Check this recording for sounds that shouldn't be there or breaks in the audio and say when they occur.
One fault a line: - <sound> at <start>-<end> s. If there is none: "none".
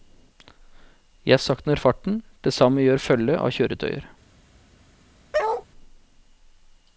- bark at 5.3-5.7 s